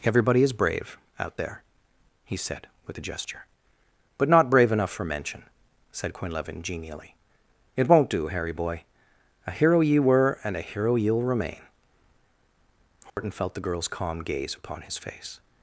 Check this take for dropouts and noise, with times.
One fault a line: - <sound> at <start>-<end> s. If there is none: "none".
- dropout at 13.1-13.2 s